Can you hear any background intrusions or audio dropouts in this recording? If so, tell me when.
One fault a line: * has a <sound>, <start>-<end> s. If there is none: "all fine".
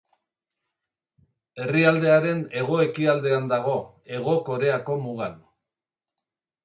all fine